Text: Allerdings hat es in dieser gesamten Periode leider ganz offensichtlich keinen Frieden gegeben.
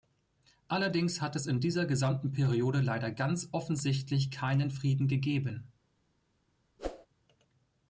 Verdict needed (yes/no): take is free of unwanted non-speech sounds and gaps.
no